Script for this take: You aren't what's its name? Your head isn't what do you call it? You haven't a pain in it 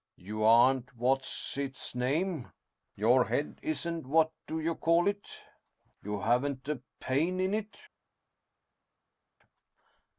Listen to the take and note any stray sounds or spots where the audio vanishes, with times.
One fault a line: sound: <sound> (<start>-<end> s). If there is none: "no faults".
no faults